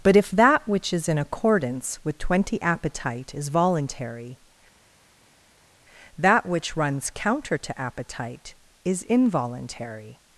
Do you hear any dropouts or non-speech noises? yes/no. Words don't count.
no